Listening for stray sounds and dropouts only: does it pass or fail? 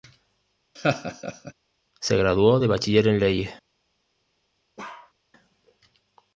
fail